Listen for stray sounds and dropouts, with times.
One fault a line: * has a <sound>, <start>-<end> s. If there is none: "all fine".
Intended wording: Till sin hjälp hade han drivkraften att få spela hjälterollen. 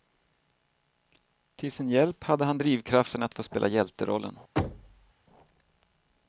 * has a thud, 4.6-5.1 s